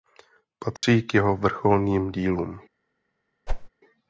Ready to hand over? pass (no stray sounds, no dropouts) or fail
fail